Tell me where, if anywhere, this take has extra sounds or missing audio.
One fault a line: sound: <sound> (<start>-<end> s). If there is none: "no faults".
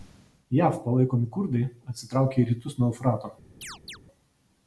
sound: chirp (3.6-4.0 s)